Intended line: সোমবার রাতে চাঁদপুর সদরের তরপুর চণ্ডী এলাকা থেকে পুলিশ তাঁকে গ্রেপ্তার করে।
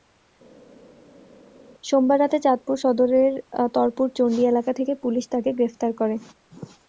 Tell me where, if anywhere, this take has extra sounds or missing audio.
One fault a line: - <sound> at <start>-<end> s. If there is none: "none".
none